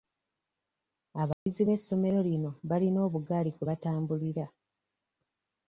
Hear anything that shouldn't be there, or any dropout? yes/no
yes